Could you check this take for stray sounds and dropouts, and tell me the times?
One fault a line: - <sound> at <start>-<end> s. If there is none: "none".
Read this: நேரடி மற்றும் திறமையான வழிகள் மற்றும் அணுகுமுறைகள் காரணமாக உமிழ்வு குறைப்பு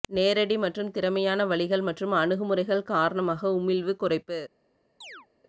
- chirp at 5.0-5.3 s